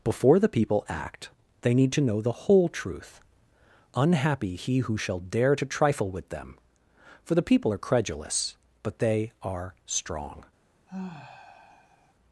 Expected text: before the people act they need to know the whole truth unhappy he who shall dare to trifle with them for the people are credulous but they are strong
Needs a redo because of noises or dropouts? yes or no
yes